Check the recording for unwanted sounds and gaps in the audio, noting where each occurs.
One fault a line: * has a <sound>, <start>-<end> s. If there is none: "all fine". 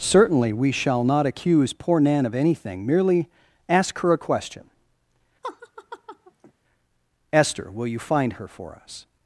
* has a laugh, 5.4-6.5 s